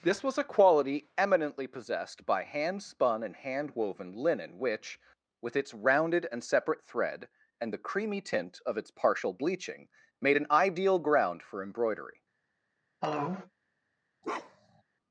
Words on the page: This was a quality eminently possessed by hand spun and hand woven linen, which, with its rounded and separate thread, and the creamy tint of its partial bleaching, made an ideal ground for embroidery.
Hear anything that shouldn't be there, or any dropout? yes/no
yes